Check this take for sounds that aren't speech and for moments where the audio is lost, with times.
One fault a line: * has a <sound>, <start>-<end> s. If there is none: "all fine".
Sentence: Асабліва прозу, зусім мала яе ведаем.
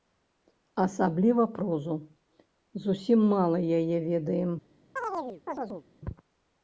* has a chirp, 5.0-5.8 s